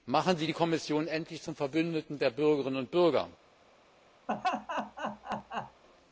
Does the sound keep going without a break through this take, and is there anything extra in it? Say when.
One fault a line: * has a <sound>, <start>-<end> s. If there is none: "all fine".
* has a laugh, 4.3-5.8 s